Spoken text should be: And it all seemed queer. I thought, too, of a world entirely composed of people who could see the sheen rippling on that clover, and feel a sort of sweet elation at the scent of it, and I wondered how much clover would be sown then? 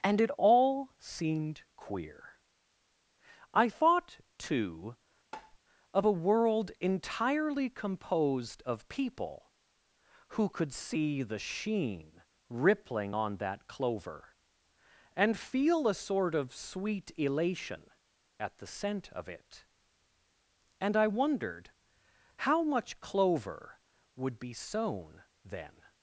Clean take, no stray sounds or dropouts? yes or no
no